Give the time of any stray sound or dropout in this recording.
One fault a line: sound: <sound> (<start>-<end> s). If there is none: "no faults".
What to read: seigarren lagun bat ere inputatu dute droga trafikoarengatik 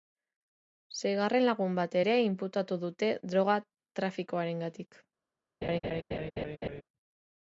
sound: laugh (5.6-6.8 s)